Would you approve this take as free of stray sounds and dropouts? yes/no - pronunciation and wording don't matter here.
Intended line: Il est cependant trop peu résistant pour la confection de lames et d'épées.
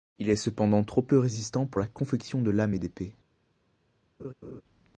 no